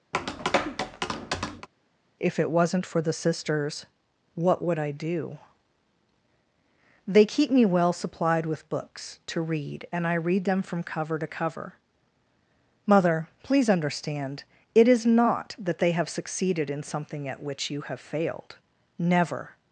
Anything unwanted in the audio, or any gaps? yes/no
yes